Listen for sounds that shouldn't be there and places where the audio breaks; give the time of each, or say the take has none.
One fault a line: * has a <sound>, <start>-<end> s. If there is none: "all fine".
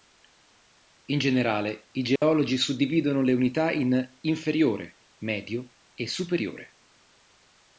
* has a dropout, 2.2-2.2 s